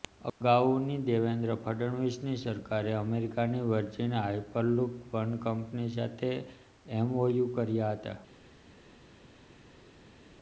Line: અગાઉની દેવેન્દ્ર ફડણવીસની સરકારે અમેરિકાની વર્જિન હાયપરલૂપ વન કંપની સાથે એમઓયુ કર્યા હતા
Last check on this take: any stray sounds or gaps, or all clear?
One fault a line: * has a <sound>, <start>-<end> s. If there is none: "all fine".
all fine